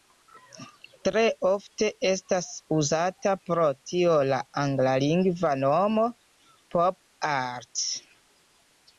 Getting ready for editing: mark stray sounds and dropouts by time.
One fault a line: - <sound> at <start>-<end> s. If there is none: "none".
none